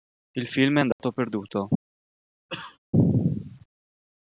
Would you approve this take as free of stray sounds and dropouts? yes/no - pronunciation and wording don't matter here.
no